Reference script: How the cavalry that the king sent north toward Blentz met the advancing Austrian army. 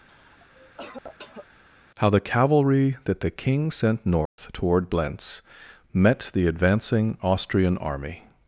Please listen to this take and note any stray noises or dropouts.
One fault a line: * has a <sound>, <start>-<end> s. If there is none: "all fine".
* has a cough, 0.1-1.5 s
* has a dropout, 4.3-4.4 s